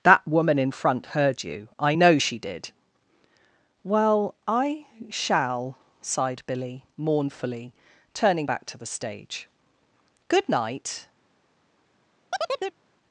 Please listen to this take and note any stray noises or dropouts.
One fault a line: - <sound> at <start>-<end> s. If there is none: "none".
- chirp at 12.3-12.8 s